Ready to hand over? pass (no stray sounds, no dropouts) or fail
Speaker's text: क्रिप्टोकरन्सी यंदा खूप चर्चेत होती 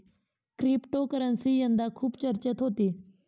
pass